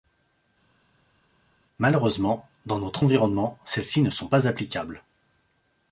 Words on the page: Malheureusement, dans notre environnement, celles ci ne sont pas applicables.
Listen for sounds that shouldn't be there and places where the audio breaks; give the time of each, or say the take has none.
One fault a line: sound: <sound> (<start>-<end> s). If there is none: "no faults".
no faults